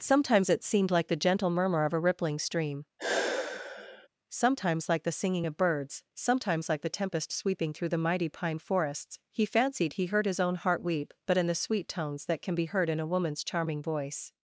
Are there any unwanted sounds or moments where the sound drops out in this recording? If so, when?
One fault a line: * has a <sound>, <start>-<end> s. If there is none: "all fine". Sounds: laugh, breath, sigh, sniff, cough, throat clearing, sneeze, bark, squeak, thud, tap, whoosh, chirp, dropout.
* has a sigh, 3.0-4.1 s